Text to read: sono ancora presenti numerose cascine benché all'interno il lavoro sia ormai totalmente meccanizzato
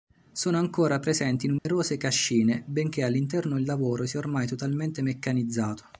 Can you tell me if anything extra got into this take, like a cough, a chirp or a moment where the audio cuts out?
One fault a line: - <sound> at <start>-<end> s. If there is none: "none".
- dropout at 1.6-1.7 s